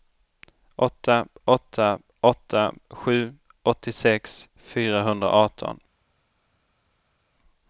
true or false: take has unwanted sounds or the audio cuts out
false